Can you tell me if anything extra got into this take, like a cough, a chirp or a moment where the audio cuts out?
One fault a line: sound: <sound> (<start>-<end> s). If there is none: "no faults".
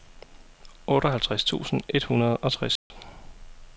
sound: dropout (2.8-2.9 s)